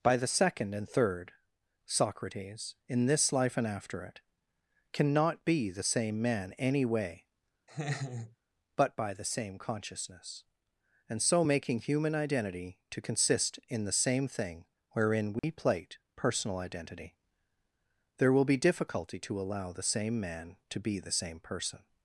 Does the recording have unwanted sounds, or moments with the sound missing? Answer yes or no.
yes